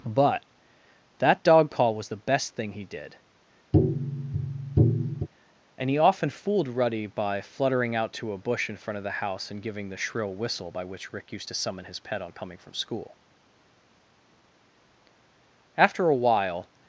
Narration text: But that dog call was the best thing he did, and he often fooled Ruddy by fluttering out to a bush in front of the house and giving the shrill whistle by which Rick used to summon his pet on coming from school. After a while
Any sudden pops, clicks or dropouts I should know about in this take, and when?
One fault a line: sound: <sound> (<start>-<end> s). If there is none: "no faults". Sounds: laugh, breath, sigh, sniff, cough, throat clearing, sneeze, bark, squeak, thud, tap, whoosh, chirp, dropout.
sound: tap (3.7-5.3 s)